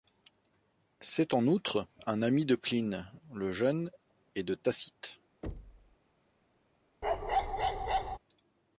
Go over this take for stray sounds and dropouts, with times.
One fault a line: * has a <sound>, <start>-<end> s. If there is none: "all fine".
* has a thud, 5.4-6.0 s
* has a bark, 7.0-8.2 s